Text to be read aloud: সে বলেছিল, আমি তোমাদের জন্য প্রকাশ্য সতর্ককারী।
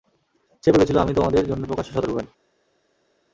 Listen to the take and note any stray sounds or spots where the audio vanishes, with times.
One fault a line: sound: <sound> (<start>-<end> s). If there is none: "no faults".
no faults